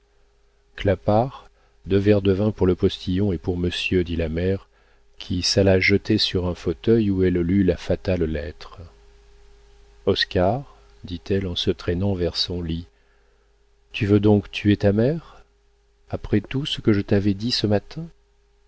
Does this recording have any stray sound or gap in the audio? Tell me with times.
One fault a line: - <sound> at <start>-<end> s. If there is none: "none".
none